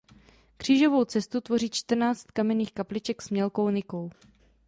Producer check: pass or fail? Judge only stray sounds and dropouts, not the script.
pass